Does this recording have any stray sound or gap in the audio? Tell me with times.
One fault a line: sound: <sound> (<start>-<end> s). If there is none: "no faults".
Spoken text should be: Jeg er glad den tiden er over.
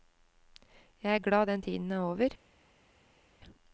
no faults